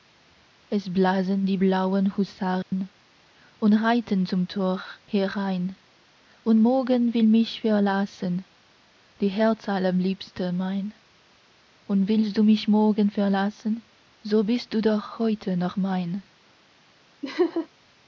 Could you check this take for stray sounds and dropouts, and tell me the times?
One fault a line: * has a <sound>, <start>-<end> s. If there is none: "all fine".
* has a dropout, 2.6-2.7 s
* has a laugh, 17.2-17.7 s